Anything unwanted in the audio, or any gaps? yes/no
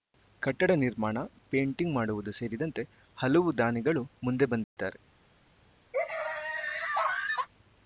yes